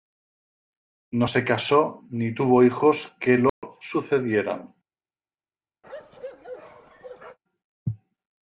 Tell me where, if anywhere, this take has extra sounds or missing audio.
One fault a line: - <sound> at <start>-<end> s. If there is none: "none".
- dropout at 3.5-3.6 s
- bark at 5.8-7.4 s